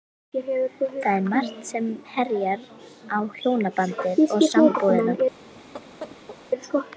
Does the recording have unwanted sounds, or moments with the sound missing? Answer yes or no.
yes